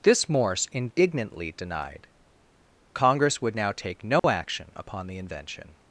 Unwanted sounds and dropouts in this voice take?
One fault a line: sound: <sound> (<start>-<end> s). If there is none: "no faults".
sound: dropout (4.2-4.2 s)